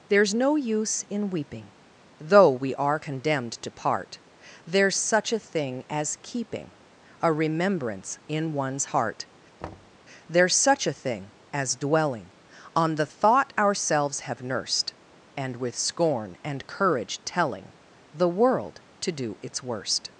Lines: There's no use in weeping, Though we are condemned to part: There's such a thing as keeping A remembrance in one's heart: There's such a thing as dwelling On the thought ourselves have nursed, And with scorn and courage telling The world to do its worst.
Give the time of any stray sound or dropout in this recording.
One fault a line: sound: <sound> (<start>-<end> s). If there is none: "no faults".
sound: thud (9.6-10.0 s)